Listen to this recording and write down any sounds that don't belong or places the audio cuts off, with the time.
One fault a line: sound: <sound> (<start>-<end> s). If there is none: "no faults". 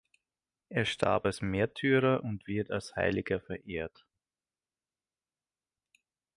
no faults